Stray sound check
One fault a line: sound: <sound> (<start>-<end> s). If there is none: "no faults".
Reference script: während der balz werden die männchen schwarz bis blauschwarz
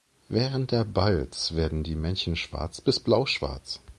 no faults